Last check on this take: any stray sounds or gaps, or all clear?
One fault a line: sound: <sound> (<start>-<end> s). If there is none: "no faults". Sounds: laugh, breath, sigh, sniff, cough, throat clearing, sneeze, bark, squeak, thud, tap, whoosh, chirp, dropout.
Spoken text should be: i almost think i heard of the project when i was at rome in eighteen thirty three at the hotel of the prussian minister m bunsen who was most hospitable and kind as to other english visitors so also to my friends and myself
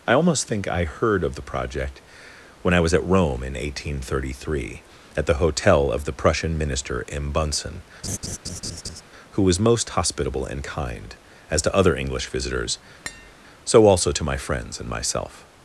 sound: laugh (8.0-9.0 s)
sound: tap (13.1-13.3 s)